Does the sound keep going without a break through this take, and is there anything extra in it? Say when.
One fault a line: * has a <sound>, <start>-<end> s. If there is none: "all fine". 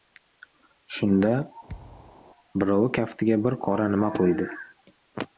* has a thud, 1.7-2.2 s